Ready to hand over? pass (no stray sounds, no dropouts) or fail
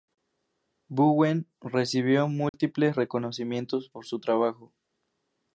fail